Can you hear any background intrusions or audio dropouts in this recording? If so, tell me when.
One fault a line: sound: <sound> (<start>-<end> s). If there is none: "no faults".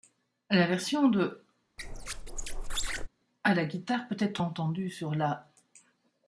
sound: squeak (1.8-3.1 s)